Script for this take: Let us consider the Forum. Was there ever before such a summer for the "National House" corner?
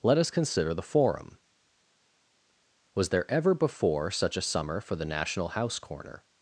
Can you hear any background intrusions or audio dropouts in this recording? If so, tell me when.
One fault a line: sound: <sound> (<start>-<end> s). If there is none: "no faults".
no faults